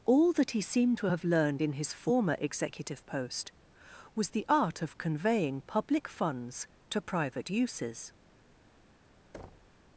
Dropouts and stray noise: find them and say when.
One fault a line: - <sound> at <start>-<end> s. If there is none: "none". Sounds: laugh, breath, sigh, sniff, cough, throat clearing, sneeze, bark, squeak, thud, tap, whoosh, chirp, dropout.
- thud at 9.3-9.8 s